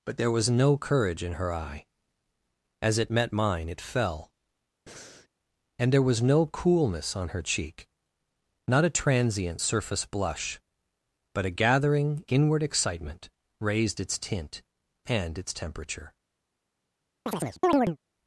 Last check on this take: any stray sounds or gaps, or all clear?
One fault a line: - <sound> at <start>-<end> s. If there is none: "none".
- breath at 4.9-5.3 s
- chirp at 17.3-18.0 s